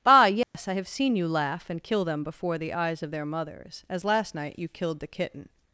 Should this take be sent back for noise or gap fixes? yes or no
yes